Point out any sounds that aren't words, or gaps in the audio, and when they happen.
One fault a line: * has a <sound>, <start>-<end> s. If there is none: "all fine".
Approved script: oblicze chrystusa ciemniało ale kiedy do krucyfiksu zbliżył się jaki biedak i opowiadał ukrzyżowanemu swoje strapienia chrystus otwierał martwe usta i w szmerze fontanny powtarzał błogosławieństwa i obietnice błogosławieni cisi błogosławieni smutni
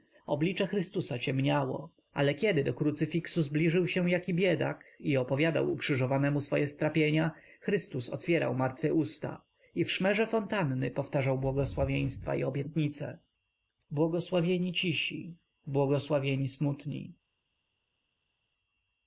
all fine